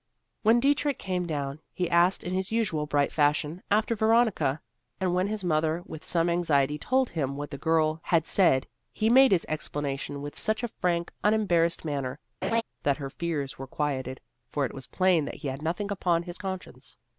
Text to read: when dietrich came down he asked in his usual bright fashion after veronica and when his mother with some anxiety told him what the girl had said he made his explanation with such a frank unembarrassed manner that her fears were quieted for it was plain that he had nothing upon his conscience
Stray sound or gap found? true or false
true